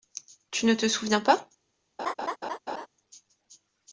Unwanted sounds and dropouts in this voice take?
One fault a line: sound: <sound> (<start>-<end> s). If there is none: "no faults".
sound: laugh (2.0-2.9 s)